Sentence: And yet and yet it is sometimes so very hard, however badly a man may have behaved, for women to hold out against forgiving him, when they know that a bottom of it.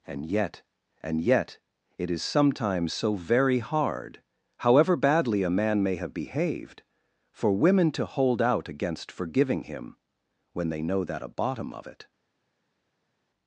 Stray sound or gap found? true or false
false